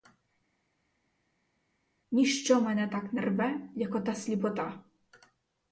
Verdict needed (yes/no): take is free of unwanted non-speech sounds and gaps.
yes